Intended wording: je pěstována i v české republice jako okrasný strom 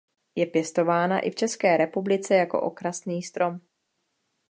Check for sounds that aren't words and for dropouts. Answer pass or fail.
pass